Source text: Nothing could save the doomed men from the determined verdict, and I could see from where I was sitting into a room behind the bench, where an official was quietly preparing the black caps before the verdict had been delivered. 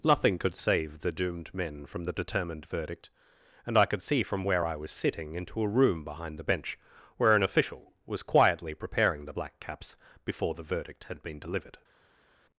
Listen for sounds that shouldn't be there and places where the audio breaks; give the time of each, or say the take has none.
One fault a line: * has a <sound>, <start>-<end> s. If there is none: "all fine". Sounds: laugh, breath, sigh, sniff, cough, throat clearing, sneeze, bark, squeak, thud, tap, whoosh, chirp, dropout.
all fine